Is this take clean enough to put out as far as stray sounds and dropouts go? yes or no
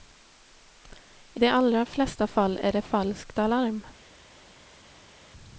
yes